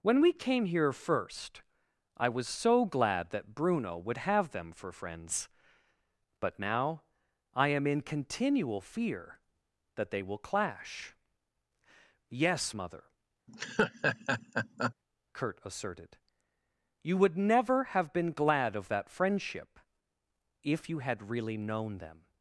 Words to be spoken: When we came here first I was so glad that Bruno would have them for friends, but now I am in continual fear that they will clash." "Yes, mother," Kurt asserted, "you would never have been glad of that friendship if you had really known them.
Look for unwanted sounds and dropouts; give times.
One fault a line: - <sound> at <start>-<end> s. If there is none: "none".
- laugh at 13.5-14.9 s